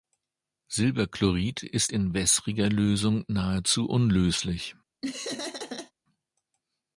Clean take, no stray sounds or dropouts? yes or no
no